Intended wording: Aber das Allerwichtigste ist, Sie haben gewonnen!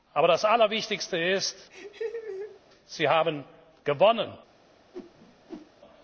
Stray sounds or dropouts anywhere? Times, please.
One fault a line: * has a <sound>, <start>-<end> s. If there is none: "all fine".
* has a laugh, 1.7-2.6 s
* has a whoosh, 4.9-5.7 s